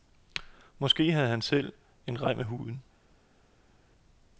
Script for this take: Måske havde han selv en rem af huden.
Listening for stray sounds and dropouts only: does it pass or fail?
pass